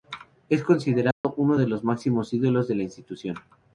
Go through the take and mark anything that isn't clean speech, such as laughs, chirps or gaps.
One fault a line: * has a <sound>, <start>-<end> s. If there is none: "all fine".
* has a dropout, 1.1-1.2 s